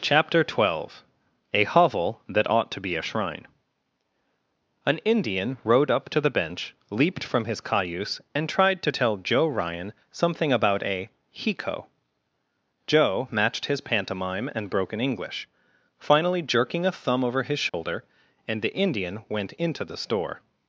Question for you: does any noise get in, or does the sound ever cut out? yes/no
yes